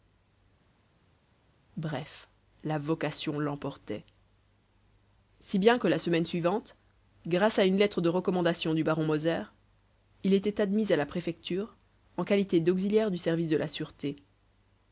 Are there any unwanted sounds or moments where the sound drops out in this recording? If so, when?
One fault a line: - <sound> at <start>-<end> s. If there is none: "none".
none